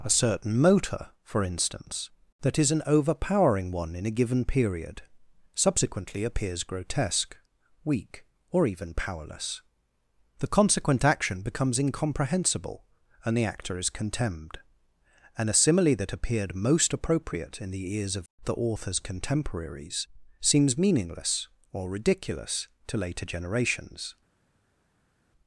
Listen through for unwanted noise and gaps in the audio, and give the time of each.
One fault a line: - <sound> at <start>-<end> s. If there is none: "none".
none